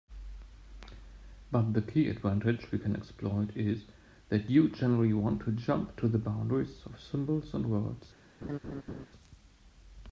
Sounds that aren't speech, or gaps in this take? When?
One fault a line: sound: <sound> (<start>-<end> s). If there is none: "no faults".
sound: laugh (8.4-9.1 s)